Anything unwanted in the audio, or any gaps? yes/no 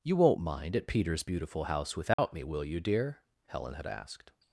yes